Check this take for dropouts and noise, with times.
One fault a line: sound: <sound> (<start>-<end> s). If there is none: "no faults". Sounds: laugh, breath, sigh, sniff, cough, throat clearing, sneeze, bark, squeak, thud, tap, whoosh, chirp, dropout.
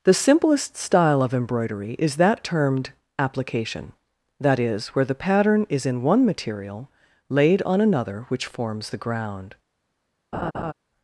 sound: laugh (10.3-10.7 s)